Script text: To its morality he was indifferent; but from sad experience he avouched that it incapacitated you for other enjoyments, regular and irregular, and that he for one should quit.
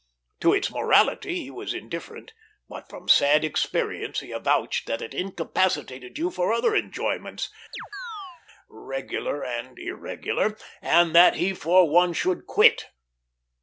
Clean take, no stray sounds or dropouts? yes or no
no